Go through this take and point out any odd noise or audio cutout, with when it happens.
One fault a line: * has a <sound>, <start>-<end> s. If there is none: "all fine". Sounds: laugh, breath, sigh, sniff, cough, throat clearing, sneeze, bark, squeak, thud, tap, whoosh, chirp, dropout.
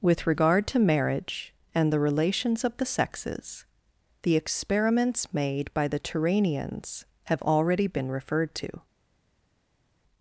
all fine